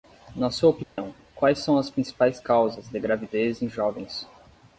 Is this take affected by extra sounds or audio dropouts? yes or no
yes